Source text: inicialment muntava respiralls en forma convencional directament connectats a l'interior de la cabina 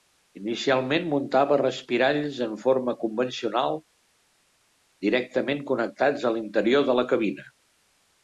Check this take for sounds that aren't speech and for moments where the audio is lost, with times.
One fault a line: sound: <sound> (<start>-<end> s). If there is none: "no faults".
no faults